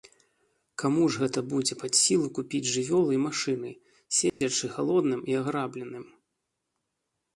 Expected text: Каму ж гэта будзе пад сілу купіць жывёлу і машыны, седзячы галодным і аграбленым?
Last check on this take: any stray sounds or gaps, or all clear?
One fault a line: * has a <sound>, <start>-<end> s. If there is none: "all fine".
* has a dropout, 4.3-4.4 s